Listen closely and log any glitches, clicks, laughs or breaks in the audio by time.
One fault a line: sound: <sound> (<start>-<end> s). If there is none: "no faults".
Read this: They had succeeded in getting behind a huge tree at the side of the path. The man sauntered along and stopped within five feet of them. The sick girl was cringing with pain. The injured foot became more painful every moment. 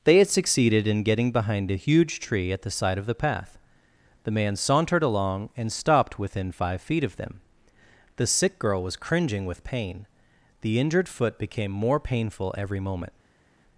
no faults